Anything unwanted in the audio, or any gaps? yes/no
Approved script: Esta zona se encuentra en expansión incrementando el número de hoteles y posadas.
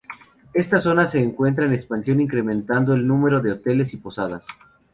no